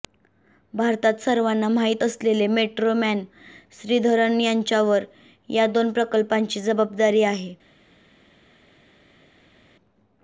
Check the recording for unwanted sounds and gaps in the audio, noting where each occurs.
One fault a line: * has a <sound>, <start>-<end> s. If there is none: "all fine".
all fine